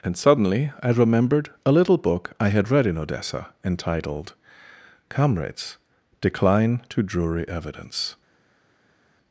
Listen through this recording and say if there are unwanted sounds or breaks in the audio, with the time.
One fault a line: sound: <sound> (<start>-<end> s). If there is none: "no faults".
no faults